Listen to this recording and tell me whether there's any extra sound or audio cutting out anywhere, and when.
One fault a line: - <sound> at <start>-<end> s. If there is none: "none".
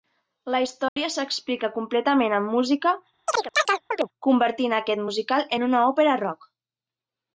- dropout at 0.9-1.0 s
- chirp at 3.3-4.1 s